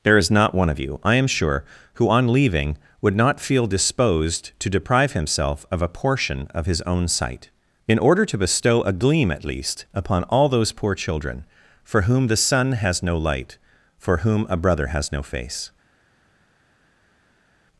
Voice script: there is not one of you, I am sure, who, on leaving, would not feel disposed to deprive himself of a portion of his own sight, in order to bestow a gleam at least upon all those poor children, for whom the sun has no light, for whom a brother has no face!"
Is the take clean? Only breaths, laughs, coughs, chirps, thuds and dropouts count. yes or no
yes